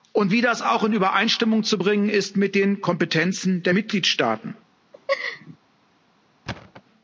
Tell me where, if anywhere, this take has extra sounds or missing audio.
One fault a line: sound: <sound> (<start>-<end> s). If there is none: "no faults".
sound: laugh (4.9-5.6 s)
sound: thud (6.5-6.8 s)